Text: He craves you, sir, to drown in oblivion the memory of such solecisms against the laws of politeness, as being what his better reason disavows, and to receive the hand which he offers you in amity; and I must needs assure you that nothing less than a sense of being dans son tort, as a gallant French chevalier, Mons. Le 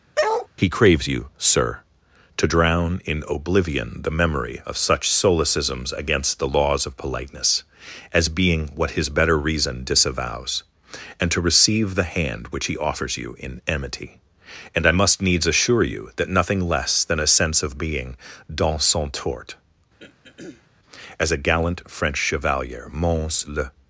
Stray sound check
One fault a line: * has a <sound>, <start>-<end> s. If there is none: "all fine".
* has a bark, 0.2-0.5 s
* has a throat clearing, 20.0-20.7 s